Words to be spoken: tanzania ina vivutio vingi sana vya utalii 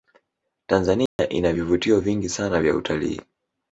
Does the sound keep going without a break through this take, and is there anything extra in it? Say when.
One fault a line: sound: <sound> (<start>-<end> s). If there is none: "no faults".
sound: dropout (1.1-1.2 s)